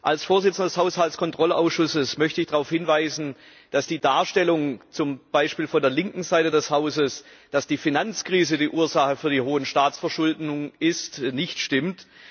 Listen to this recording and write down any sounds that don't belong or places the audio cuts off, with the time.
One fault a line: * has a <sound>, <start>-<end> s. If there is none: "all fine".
all fine